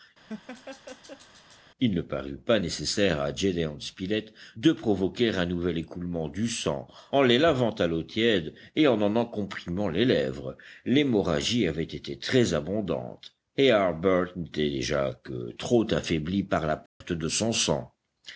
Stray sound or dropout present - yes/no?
yes